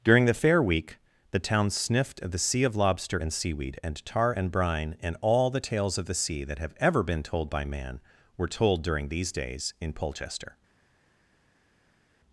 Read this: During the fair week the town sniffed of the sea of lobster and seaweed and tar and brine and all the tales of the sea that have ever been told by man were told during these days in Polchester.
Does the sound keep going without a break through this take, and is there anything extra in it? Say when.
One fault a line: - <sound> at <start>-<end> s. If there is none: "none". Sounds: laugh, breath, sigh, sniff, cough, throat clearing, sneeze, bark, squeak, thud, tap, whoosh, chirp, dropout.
none